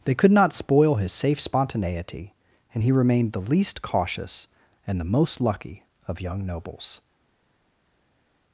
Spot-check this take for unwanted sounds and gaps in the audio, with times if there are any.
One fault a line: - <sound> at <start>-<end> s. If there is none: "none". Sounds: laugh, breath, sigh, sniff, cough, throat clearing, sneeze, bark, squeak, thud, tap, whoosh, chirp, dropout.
none